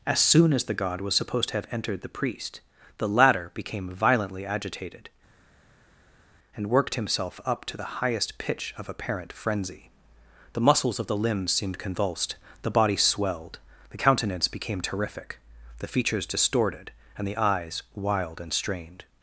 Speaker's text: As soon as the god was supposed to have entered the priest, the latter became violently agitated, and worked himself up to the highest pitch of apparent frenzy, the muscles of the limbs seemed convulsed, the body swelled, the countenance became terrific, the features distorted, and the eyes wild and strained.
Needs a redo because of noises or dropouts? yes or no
no